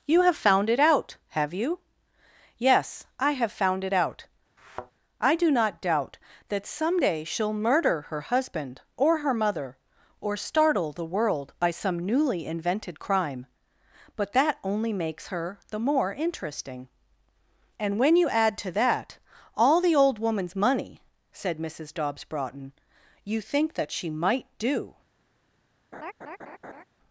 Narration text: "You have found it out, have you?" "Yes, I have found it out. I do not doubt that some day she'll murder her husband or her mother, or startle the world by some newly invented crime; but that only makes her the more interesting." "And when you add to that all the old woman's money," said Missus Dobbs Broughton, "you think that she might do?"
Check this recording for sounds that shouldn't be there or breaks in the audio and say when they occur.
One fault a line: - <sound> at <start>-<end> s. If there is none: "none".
- thud at 4.6-4.9 s
- laugh at 25.9-26.8 s